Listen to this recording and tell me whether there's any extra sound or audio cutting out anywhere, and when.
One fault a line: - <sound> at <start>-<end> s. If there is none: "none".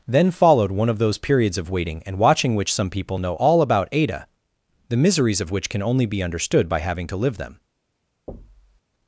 - thud at 8.3-8.8 s